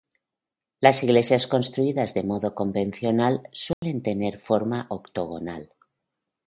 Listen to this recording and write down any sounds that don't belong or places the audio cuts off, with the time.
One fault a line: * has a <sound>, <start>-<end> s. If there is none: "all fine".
* has a dropout, 3.7-3.8 s